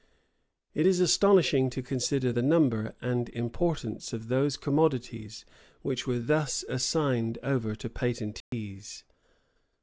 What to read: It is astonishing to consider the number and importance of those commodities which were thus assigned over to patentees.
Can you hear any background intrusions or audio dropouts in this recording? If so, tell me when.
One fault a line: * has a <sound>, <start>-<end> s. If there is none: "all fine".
* has a dropout, 8.4-8.5 s